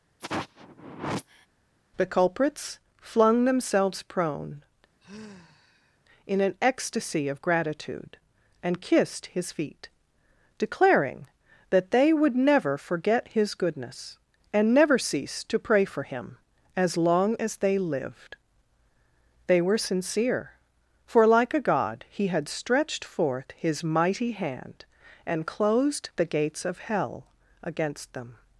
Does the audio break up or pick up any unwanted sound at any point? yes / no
yes